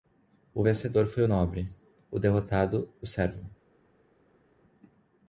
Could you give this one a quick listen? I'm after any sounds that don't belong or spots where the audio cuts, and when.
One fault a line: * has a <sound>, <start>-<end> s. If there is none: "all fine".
all fine